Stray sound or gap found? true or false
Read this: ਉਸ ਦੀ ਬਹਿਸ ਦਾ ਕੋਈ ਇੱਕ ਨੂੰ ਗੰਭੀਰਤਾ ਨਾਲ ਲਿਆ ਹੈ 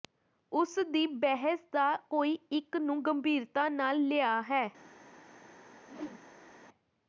true